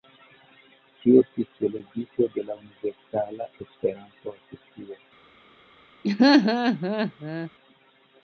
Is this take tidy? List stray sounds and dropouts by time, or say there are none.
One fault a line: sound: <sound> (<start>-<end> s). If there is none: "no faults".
sound: laugh (6.0-7.5 s)